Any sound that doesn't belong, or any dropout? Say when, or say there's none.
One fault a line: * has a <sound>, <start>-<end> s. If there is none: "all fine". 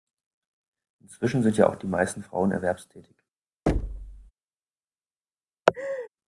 * has a thud, 3.7-4.3 s
* has a laugh, 5.7-6.1 s